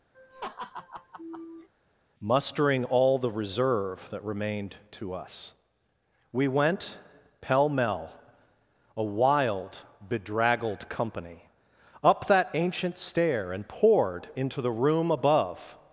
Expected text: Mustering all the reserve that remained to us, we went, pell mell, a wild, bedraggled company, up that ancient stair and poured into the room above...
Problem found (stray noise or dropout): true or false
true